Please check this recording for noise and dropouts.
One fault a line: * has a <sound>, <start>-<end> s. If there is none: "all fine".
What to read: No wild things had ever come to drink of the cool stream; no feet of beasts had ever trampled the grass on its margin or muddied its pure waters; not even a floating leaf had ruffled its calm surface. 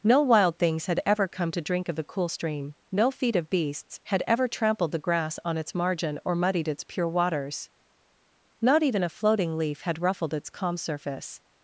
all fine